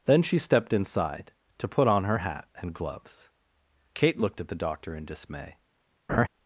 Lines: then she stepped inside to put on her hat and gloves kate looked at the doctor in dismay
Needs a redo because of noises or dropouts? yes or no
yes